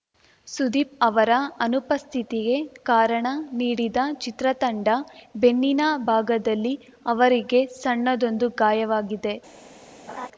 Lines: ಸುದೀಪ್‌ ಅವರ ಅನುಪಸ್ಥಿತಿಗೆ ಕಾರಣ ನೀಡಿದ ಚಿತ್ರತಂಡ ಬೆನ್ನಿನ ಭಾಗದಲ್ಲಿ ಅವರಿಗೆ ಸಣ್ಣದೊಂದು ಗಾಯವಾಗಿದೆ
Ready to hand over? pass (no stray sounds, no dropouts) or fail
fail